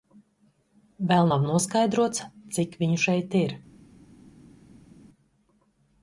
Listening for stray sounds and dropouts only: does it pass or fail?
pass